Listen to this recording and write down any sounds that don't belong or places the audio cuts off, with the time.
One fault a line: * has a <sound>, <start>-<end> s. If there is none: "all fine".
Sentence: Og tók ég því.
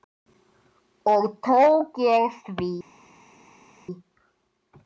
all fine